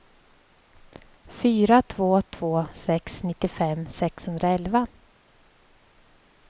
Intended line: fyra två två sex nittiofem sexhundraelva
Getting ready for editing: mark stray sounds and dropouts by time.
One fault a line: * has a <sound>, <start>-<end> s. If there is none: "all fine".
all fine